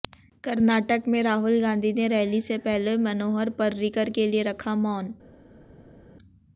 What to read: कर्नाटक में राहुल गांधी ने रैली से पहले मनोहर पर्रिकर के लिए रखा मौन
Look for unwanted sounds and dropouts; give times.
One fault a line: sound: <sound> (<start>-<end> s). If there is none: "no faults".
no faults